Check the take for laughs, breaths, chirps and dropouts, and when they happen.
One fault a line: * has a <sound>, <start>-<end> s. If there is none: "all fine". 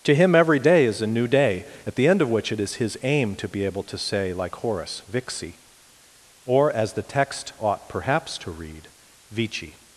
all fine